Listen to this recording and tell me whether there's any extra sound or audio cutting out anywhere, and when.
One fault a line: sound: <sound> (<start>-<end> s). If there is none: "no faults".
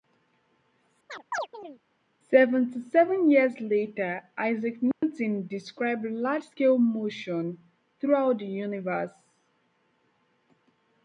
sound: chirp (1.1-1.8 s)
sound: dropout (4.9-5.0 s)